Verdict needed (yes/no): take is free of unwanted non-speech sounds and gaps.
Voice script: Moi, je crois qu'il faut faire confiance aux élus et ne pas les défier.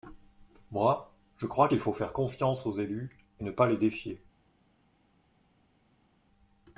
yes